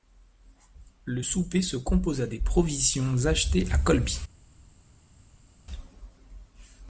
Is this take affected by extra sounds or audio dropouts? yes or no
no